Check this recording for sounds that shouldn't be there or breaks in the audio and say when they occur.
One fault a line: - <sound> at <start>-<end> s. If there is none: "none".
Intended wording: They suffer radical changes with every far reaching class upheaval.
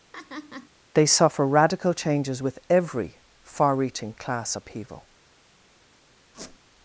- laugh at 0.1-0.7 s
- squeak at 6.3-6.6 s